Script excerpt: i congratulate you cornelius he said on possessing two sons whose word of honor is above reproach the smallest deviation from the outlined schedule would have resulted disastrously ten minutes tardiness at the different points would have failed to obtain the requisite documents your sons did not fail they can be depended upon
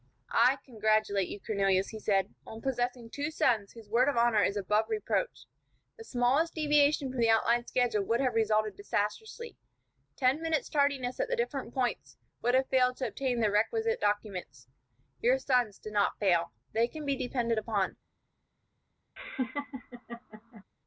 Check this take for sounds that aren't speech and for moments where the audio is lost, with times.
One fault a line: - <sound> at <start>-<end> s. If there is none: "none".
- laugh at 19.2-20.6 s